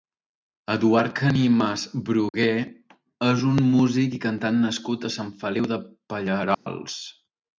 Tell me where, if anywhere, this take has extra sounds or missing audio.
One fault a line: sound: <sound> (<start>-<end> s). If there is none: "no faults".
sound: dropout (2.3-2.3 s)
sound: dropout (6.5-6.7 s)